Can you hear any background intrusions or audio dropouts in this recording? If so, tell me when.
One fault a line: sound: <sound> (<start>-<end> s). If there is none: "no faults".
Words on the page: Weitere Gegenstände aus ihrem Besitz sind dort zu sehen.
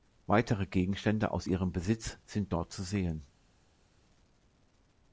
no faults